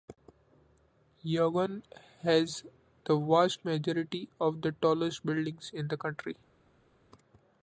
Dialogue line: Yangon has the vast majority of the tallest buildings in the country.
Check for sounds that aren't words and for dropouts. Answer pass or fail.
pass